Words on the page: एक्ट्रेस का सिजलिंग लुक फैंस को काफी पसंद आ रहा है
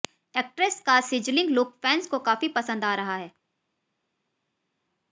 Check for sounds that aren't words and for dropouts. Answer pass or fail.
pass